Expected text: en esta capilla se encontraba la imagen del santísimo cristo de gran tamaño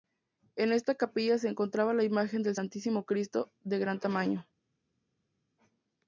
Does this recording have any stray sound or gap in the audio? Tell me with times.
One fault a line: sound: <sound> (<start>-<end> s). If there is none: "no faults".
no faults